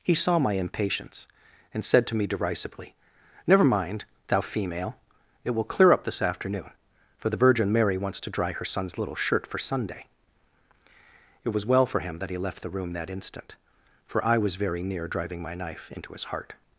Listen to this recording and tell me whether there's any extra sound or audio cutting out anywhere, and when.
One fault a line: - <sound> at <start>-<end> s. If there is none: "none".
none